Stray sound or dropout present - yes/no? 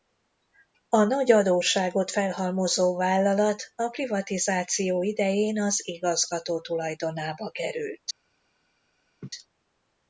yes